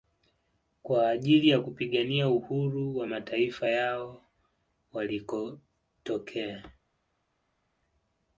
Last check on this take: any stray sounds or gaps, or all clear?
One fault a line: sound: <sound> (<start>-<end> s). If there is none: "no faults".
no faults